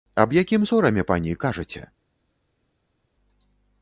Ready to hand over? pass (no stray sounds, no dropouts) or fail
pass